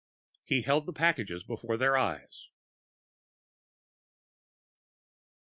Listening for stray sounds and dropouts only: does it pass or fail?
pass